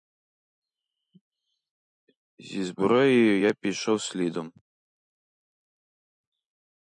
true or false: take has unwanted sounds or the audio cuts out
false